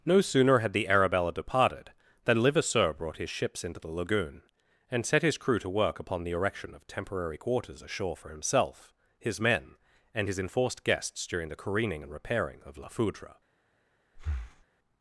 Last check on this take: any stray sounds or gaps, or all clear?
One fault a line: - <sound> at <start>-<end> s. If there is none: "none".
- breath at 14.2-14.7 s